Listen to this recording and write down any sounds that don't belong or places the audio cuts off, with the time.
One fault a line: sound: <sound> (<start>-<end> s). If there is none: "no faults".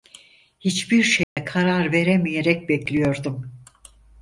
sound: dropout (1.2-1.4 s)